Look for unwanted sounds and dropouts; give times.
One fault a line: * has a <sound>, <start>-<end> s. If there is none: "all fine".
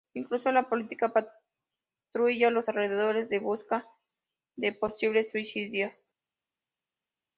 all fine